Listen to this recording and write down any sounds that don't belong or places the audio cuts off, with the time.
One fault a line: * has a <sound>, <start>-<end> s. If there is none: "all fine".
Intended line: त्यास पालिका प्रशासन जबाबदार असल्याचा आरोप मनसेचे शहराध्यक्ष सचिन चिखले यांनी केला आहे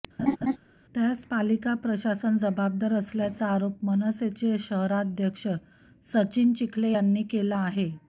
* has a laugh, 0.2-0.6 s